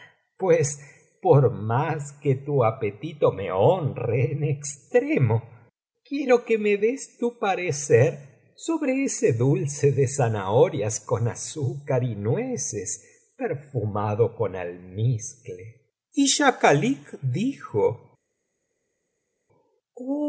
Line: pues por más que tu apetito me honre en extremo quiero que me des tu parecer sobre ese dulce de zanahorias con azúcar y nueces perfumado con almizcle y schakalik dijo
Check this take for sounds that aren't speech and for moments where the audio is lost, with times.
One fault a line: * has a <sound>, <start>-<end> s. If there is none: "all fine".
all fine